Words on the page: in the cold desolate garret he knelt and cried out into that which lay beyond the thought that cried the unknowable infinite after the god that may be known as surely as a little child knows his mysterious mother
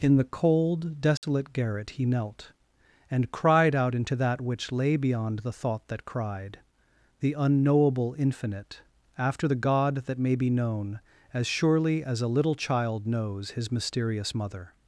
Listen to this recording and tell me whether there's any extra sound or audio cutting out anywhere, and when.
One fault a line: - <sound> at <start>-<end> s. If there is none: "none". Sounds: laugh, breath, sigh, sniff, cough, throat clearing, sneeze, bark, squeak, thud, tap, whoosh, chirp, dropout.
- dropout at 1.2-1.2 s